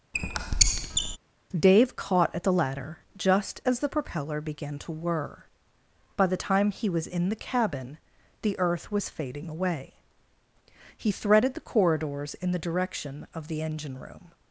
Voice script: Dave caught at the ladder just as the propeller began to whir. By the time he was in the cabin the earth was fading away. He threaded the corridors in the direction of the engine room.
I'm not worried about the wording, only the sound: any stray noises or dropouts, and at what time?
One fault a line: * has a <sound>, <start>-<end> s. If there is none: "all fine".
* has a squeak, 0.1-1.2 s